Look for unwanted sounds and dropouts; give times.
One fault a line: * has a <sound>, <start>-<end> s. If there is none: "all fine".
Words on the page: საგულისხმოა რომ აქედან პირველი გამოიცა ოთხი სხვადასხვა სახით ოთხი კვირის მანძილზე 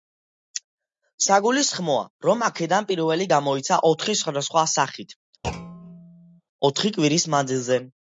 * has a thud, 5.4-6.4 s